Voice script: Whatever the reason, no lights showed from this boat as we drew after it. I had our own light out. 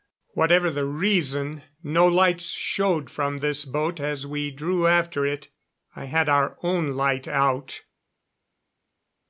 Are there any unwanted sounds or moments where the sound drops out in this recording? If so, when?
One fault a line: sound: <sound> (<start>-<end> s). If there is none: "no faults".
no faults